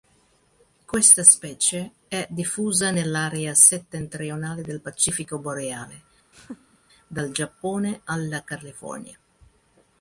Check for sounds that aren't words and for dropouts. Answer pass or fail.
fail